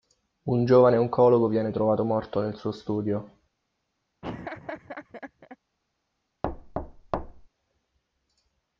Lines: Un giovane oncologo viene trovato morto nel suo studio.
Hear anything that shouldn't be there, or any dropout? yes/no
yes